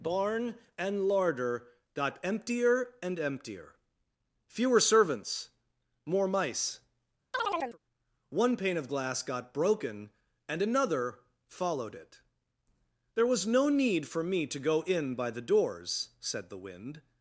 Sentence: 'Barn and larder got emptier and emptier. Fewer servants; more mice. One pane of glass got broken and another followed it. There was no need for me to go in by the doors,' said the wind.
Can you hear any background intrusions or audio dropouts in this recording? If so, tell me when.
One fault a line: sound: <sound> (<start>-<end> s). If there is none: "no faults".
sound: chirp (7.3-7.8 s)